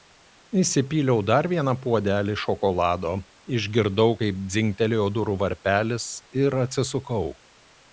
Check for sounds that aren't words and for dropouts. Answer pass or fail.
pass